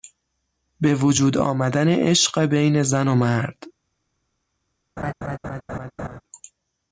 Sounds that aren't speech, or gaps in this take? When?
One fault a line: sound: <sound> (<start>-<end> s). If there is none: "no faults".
sound: laugh (5.0-6.2 s)